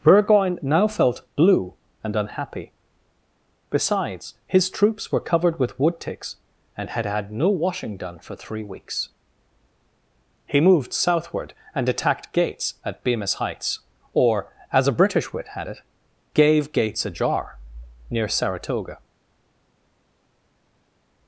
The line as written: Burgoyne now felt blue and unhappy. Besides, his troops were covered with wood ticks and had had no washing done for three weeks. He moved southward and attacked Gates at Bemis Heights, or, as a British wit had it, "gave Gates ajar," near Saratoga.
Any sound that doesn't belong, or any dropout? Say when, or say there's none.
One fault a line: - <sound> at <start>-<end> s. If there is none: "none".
none